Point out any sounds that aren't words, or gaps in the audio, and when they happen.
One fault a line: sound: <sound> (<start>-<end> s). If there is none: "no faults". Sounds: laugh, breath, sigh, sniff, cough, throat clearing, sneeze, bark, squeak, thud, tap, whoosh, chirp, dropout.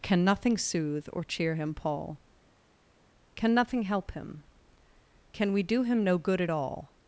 no faults